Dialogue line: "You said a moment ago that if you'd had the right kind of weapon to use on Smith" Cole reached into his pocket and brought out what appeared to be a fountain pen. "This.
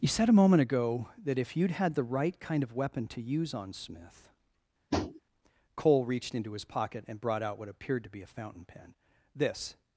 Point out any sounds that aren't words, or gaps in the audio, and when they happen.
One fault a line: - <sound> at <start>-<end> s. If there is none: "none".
- tap at 4.9-5.2 s